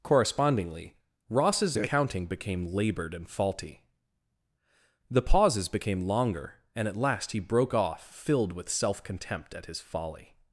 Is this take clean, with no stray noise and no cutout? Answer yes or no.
yes